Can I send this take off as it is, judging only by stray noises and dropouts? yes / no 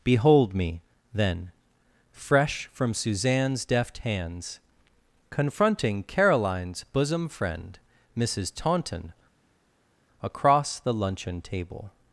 yes